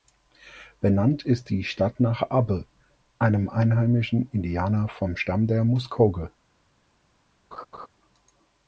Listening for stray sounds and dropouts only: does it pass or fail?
fail